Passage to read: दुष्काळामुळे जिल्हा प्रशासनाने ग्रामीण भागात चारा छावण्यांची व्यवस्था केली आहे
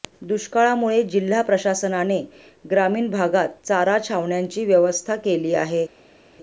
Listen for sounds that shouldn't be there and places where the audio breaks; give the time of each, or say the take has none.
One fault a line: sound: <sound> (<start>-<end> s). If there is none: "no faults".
no faults